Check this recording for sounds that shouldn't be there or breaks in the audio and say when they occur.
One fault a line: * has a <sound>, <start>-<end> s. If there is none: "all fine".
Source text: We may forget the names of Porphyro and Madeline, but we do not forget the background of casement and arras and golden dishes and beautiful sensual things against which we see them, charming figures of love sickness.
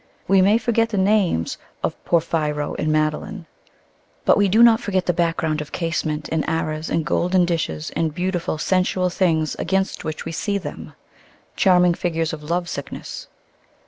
all fine